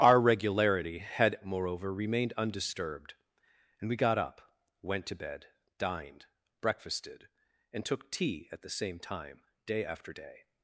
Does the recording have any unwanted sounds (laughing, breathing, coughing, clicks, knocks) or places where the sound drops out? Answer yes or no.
no